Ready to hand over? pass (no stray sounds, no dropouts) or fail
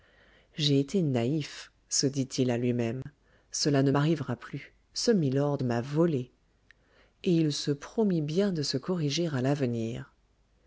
fail